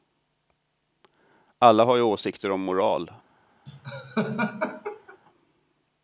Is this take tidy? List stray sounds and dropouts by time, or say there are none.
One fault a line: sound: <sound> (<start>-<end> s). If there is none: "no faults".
sound: laugh (3.7-5.2 s)